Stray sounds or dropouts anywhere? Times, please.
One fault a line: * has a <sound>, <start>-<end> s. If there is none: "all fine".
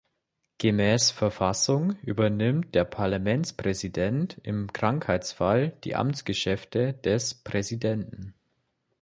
all fine